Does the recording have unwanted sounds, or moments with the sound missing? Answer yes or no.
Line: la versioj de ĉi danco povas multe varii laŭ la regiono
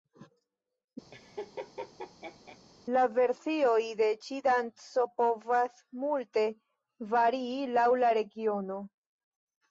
yes